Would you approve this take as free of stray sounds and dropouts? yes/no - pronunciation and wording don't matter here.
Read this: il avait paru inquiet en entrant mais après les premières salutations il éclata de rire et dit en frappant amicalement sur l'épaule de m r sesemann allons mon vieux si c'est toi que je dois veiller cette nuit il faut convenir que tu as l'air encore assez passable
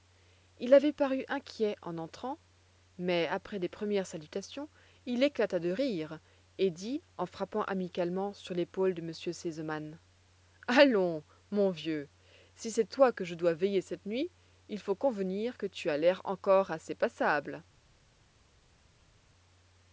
yes